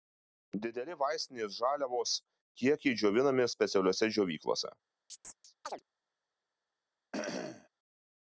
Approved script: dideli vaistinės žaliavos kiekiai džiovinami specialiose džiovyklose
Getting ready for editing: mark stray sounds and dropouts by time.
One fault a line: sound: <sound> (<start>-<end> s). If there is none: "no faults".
sound: chirp (5.1-5.8 s)
sound: cough (7.1-7.7 s)